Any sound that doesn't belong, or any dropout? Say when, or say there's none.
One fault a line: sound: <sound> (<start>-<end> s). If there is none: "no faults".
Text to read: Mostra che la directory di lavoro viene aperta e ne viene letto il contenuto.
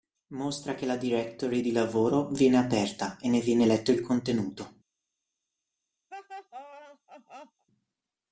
sound: laugh (6.1-7.7 s)